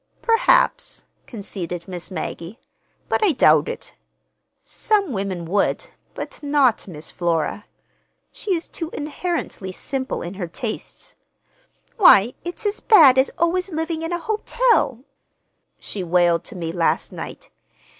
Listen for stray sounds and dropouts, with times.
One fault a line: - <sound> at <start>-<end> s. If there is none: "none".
none